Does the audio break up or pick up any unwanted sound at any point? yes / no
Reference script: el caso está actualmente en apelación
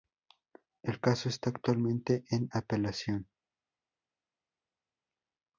no